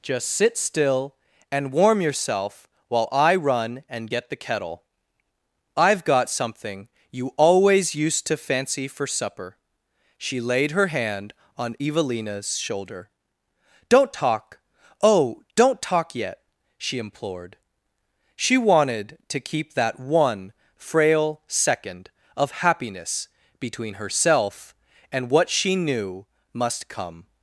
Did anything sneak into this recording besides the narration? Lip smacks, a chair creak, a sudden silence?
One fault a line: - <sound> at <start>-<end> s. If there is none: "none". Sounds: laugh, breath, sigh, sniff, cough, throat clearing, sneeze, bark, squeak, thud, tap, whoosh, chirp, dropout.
none